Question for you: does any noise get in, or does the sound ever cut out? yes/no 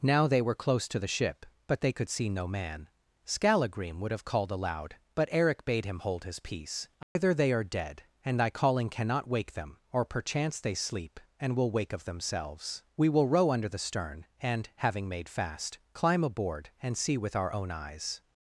yes